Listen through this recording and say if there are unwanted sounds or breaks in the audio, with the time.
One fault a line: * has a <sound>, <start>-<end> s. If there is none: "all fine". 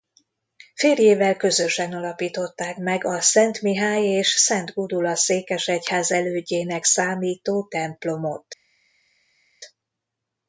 all fine